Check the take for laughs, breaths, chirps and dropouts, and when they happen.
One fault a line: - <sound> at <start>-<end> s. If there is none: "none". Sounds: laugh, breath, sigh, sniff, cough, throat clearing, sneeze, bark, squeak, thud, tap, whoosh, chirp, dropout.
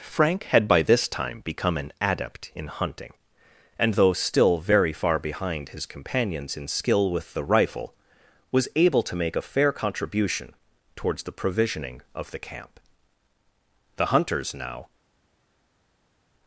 none